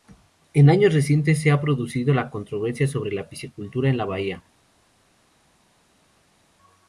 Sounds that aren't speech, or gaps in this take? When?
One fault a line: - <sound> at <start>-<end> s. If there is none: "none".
none